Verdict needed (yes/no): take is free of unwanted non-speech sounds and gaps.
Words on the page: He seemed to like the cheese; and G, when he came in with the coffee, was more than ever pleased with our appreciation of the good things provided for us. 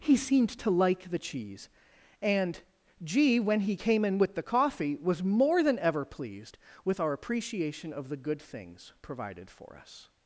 yes